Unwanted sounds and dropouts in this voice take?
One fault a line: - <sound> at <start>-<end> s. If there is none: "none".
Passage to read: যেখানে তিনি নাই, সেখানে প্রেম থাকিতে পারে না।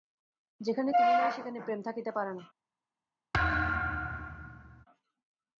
- thud at 3.3-4.9 s